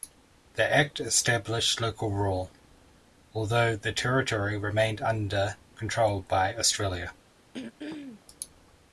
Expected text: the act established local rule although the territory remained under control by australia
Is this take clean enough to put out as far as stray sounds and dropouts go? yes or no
no